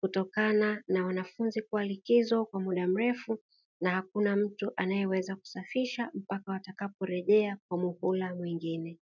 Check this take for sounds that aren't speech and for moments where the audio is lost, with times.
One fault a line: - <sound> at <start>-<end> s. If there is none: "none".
none